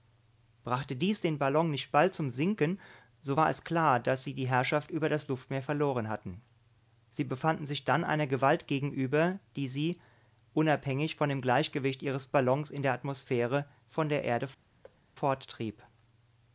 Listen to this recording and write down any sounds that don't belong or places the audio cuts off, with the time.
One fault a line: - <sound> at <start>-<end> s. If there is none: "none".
- thud at 14.8-15.0 s